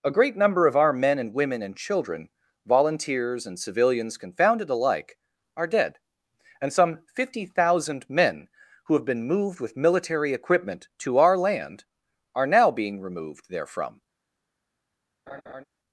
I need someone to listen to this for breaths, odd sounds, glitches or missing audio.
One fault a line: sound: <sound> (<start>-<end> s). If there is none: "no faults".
sound: laugh (15.3-15.6 s)